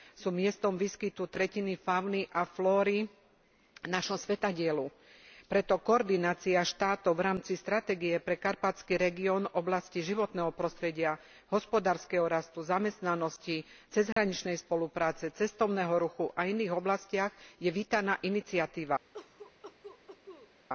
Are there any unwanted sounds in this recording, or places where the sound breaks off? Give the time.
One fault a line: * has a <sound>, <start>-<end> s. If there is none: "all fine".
* has a dropout, 14.1-14.2 s
* has a cough, 19.1-20.5 s